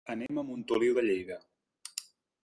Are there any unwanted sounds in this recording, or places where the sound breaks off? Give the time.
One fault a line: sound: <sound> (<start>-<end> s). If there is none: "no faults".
sound: dropout (0.3-0.3 s)